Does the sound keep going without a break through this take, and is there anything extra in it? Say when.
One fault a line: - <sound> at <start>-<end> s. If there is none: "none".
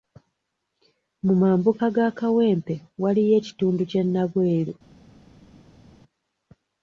none